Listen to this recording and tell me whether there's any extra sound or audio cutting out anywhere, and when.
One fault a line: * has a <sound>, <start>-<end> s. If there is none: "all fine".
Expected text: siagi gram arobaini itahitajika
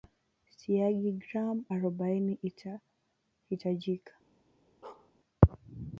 * has a bark, 4.8-5.1 s